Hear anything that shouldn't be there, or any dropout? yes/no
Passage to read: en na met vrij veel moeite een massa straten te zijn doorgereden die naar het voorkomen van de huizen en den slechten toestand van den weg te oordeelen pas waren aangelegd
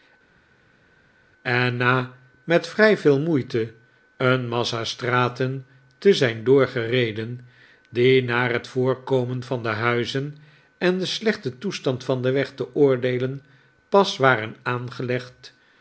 no